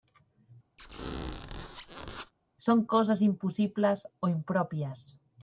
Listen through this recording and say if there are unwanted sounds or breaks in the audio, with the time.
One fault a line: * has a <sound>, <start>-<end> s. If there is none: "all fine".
* has a squeak, 0.8-2.3 s